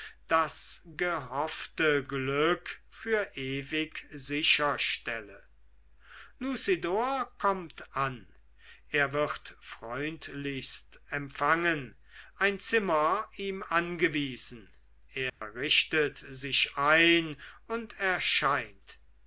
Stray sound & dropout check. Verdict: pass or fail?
fail